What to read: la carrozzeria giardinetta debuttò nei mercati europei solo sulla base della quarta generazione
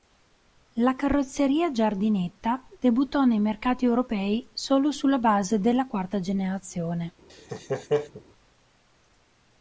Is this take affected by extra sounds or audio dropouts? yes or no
yes